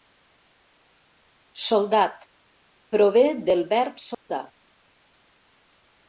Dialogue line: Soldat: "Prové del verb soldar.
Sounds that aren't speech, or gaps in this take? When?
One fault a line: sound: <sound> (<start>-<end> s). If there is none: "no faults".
sound: dropout (4.1-4.3 s)